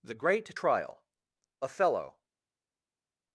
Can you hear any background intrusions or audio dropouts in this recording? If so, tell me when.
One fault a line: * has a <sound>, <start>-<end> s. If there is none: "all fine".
all fine